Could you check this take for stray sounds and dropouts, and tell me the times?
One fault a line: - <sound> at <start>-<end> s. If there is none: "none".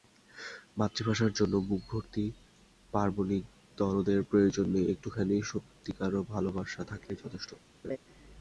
- laugh at 7.8-8.0 s